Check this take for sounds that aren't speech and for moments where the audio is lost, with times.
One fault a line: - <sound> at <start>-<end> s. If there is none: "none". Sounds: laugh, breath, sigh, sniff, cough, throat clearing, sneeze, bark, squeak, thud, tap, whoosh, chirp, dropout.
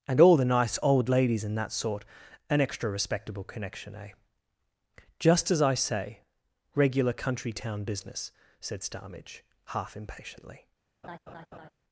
- laugh at 11.0-11.7 s